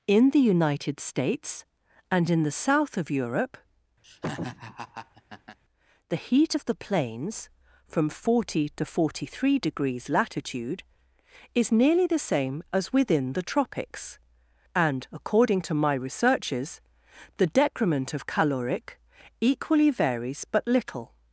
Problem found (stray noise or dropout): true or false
true